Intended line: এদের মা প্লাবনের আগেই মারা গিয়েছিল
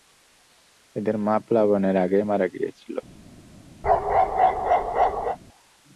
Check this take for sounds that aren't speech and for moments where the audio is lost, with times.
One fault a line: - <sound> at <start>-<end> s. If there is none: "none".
- bark at 3.8-5.4 s